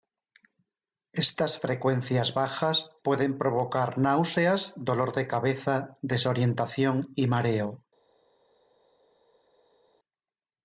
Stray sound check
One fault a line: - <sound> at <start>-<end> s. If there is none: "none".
none